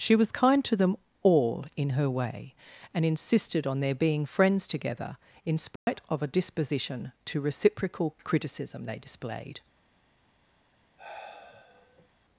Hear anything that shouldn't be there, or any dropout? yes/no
yes